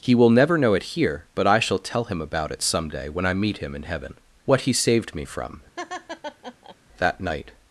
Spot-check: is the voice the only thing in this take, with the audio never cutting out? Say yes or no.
no